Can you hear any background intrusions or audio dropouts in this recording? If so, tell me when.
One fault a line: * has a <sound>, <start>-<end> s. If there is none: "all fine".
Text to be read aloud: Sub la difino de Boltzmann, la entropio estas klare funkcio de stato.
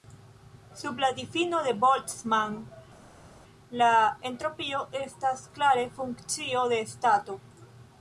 all fine